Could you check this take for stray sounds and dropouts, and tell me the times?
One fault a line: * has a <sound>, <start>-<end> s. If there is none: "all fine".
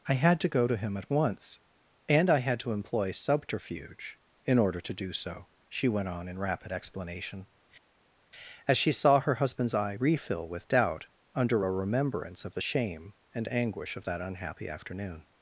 all fine